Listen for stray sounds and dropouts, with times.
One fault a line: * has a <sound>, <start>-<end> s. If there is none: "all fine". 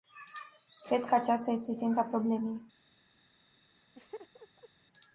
* has a laugh, 3.9-4.7 s